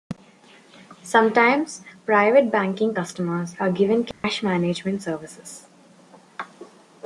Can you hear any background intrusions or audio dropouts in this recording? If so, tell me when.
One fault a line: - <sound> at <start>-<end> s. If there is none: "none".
- dropout at 4.1-4.2 s